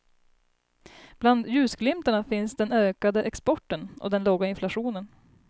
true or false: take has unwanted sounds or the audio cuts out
false